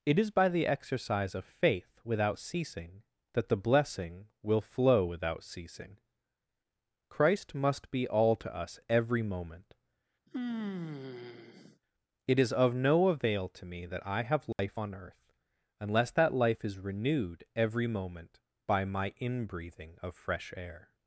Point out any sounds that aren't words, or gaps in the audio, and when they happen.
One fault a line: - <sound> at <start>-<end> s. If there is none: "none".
- sigh at 10.3-11.8 s
- dropout at 14.5-14.6 s